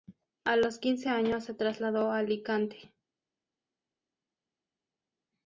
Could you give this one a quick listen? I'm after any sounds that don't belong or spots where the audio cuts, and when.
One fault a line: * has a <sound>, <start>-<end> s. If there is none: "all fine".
all fine